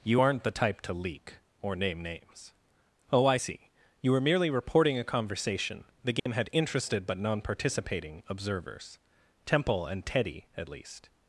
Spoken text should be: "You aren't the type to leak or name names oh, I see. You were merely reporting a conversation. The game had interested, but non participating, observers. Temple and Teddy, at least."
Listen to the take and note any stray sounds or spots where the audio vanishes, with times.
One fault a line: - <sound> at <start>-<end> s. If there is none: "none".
- dropout at 6.2-6.3 s